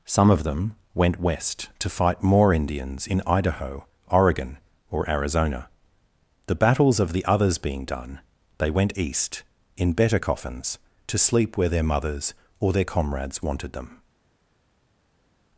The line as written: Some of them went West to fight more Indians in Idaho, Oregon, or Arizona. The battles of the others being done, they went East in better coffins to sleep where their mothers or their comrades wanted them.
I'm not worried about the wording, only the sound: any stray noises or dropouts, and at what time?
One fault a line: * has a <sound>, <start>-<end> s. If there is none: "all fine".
all fine